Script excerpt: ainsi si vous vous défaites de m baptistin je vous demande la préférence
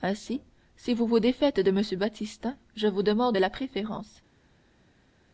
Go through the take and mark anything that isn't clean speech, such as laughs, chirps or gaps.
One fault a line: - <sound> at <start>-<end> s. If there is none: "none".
none